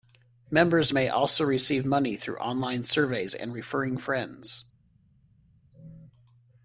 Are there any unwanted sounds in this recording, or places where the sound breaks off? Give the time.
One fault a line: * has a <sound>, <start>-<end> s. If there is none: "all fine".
all fine